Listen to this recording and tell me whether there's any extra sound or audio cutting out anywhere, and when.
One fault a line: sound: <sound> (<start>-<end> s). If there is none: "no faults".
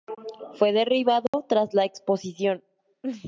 sound: dropout (1.3-1.3 s)